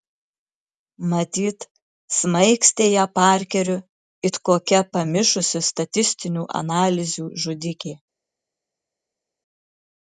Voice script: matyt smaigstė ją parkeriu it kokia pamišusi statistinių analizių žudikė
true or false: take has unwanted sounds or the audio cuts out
false